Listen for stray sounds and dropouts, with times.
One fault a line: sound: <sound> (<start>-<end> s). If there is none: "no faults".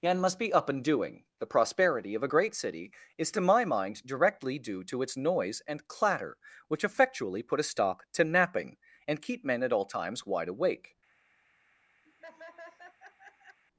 sound: laugh (12.0-13.6 s)